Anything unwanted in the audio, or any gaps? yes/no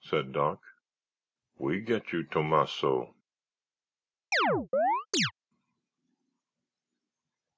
yes